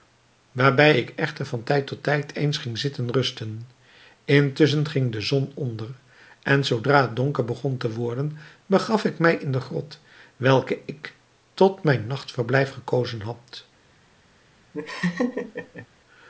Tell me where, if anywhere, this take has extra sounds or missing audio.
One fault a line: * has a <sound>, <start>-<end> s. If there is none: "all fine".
* has a laugh, 14.7-15.9 s